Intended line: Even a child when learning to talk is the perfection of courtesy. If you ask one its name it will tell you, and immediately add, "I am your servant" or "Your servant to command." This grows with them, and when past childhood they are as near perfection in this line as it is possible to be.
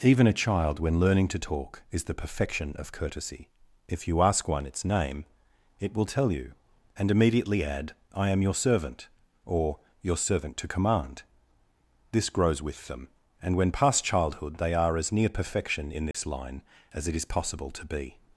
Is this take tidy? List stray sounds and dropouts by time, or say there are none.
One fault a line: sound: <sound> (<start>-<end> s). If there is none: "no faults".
sound: dropout (16.1-16.1 s)